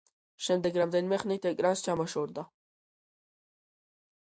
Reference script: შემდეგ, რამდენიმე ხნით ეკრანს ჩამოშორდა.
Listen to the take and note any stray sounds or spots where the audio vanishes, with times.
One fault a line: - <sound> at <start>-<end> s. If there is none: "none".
none